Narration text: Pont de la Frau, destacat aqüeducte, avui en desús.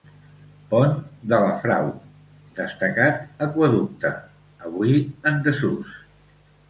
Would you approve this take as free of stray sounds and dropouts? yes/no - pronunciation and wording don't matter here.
yes